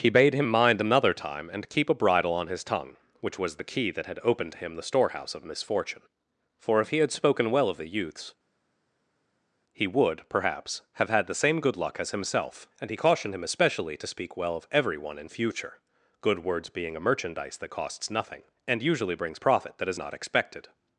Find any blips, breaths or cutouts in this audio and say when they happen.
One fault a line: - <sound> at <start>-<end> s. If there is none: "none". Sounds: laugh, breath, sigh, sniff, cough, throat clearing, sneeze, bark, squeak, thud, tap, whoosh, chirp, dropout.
none